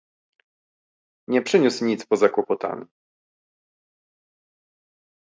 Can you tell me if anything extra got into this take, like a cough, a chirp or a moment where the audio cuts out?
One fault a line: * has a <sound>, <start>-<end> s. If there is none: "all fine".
all fine